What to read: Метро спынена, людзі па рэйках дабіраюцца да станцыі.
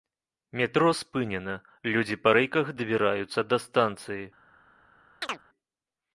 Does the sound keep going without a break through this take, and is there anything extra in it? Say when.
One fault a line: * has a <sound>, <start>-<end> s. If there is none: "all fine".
* has a chirp, 5.2-5.4 s